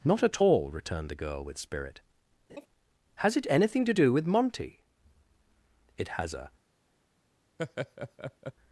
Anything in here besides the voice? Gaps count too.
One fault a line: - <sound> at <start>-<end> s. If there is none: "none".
- laugh at 2.5-2.7 s
- laugh at 7.6-8.5 s